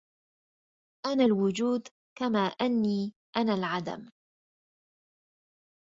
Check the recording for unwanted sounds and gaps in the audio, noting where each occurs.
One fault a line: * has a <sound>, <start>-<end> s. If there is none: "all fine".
all fine